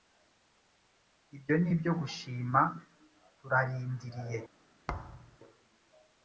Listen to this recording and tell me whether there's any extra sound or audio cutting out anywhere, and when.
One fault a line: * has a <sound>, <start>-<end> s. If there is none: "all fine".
* has a thud, 4.9-5.4 s